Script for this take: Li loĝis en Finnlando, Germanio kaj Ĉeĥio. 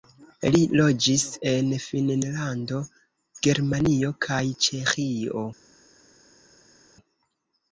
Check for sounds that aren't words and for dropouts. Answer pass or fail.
pass